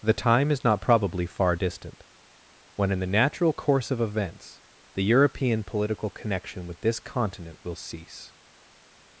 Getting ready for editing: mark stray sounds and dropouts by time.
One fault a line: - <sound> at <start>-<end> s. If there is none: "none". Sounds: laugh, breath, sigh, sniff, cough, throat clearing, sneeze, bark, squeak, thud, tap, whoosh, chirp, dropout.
none